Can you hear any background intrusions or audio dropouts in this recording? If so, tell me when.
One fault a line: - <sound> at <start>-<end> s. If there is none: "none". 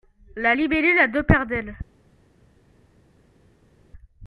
none